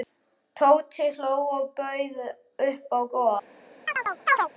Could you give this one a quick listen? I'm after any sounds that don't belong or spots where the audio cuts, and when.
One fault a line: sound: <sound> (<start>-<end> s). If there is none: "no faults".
sound: chirp (3.9-4.5 s)